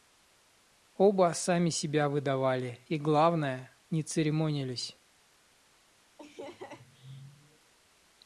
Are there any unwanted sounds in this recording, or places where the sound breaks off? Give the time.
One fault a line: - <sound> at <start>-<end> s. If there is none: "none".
- laugh at 6.2-7.7 s